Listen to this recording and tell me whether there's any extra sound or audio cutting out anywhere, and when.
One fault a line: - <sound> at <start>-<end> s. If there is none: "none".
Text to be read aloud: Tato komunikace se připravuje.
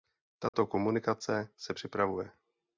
- dropout at 0.5-0.5 s